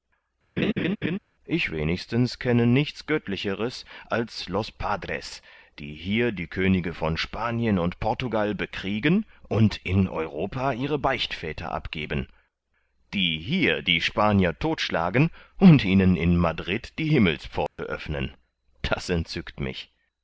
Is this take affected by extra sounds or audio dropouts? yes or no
yes